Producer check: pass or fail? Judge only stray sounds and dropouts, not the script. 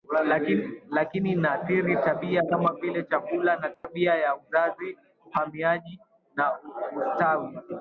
fail